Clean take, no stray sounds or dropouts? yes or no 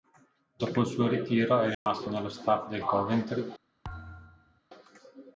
no